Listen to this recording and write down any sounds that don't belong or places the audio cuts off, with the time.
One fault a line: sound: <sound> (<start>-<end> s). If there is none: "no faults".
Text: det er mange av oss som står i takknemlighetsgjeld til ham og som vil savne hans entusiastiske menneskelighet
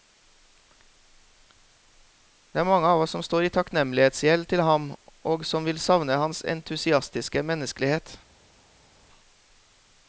no faults